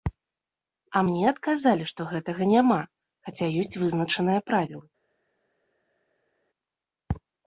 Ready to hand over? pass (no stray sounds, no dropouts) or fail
pass